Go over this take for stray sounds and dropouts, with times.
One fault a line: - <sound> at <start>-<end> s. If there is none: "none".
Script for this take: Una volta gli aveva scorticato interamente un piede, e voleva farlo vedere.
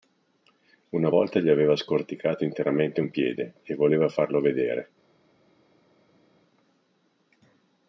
none